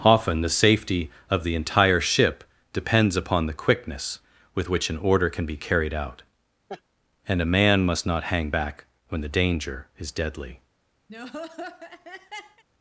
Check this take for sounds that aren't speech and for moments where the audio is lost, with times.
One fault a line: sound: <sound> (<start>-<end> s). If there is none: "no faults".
sound: laugh (6.7-6.8 s)
sound: laugh (11.1-12.6 s)